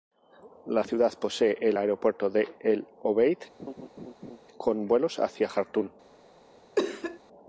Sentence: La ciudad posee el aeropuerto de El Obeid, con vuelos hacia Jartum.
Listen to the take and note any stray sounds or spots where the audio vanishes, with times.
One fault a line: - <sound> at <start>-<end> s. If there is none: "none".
- laugh at 3.6-4.4 s
- cough at 6.8-7.2 s